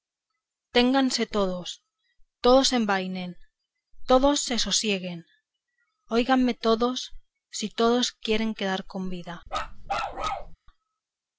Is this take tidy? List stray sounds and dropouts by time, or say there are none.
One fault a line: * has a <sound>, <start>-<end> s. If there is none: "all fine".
* has a bark, 9.5-10.6 s